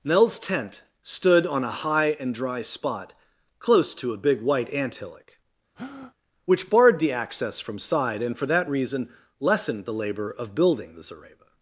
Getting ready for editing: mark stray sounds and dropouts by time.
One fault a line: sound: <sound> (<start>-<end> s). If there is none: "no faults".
sound: breath (5.8-6.1 s)